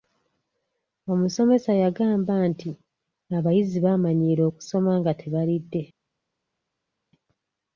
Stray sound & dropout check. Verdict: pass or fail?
pass